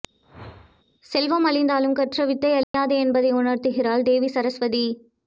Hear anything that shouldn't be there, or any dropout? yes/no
yes